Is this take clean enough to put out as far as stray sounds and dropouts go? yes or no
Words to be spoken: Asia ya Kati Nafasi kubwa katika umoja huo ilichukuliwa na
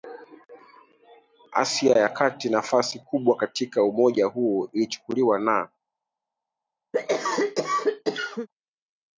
no